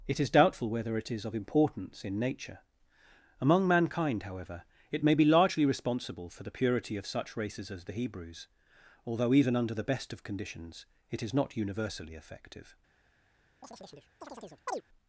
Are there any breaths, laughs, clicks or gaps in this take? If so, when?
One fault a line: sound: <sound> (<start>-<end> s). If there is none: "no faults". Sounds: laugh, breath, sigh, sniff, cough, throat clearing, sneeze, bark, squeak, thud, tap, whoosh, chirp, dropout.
sound: chirp (13.6-14.8 s)